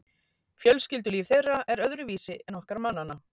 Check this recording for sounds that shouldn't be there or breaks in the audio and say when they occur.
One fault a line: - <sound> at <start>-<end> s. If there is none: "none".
none